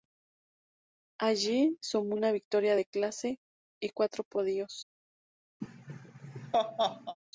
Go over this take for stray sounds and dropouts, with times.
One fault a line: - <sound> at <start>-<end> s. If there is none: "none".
- laugh at 5.6-7.2 s